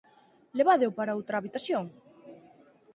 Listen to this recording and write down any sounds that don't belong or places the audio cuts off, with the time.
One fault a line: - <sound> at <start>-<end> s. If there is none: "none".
none